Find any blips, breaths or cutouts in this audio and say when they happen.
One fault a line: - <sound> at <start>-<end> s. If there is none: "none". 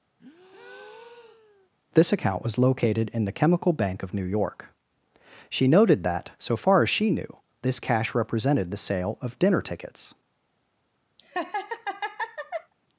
- breath at 0.2-1.7 s
- laugh at 11.2-12.7 s